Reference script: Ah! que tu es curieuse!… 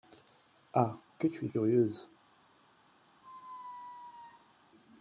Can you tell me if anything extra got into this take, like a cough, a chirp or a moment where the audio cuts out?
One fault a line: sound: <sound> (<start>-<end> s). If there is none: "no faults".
sound: squeak (3.2-4.5 s)